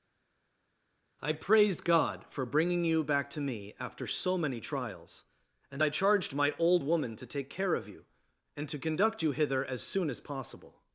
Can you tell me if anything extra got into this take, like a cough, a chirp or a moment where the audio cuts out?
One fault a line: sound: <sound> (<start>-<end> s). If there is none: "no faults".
no faults